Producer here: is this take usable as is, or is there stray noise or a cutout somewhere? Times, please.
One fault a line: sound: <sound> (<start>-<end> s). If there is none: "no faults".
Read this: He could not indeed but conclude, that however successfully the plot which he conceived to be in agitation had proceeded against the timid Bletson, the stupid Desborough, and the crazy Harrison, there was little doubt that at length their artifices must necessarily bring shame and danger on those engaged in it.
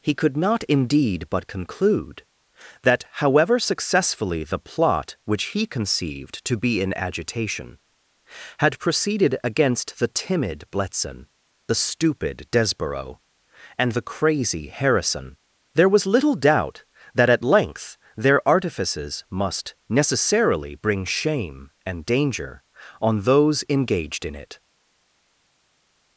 no faults